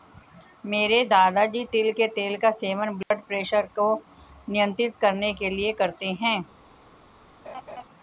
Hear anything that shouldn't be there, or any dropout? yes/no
yes